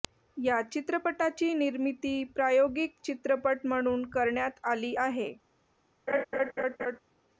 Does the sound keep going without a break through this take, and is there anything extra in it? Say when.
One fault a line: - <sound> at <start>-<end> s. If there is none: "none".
- laugh at 6.1-7.0 s